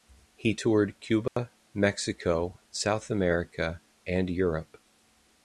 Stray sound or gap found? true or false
true